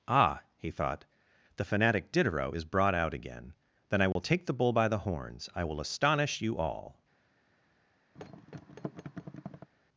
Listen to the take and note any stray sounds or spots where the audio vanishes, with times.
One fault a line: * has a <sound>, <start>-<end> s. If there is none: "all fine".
* has a dropout, 4.1-4.2 s
* has a thud, 8.1-9.7 s